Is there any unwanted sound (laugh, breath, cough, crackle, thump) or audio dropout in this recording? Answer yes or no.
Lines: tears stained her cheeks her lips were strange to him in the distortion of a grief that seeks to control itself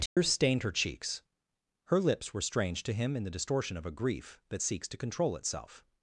yes